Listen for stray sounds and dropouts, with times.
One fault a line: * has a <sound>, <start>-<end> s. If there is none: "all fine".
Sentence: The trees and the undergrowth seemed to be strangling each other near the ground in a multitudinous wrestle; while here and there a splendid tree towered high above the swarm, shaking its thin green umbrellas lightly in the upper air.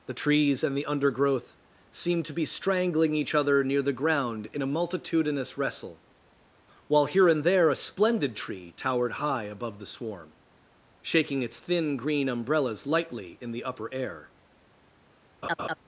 * has a laugh, 15.4-15.8 s